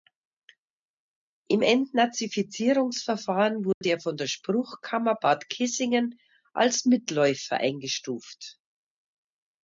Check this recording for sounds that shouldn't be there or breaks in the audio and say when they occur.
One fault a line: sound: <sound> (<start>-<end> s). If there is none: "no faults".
sound: dropout (3.7-3.8 s)